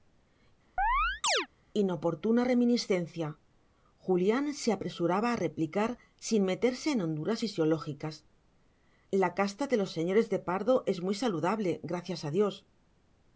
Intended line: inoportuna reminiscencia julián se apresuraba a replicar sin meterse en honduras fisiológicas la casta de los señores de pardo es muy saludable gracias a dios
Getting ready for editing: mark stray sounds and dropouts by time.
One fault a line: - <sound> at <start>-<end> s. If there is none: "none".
- chirp at 0.8-1.5 s